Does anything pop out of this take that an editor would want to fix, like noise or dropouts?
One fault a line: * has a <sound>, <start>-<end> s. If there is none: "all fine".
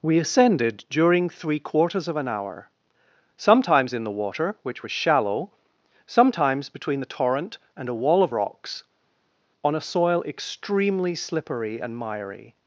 all fine